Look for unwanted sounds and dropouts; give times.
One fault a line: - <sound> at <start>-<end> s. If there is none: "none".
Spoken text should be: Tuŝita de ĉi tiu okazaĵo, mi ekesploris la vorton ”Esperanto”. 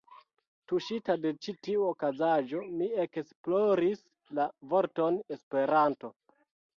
none